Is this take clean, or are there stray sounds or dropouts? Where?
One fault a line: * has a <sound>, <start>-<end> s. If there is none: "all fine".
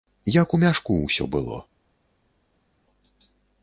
all fine